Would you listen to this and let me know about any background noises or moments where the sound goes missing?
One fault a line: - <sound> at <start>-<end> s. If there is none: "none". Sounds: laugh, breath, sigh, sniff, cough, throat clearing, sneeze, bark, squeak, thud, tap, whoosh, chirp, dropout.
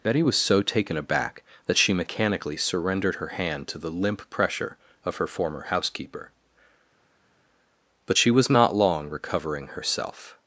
none